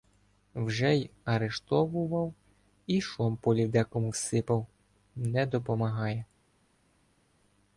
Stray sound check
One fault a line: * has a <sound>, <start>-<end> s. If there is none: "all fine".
all fine